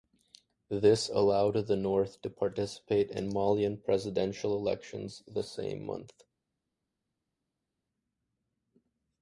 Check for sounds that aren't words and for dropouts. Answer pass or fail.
pass